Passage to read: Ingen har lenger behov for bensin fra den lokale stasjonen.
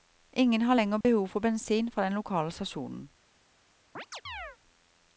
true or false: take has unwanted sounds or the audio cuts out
true